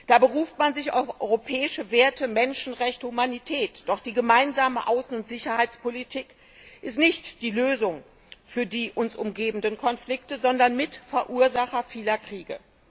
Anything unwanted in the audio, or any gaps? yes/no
no